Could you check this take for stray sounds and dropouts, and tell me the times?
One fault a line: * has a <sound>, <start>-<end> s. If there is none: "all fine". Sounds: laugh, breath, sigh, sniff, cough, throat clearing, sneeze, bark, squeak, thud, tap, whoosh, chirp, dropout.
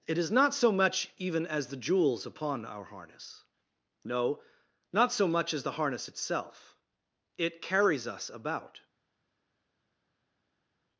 all fine